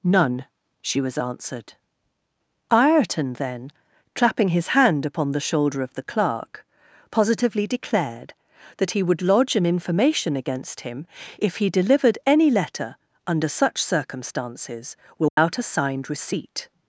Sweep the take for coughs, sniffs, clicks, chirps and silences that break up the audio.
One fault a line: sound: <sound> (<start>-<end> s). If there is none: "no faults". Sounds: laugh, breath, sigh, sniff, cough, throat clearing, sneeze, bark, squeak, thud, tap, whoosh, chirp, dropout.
sound: dropout (15.3-15.4 s)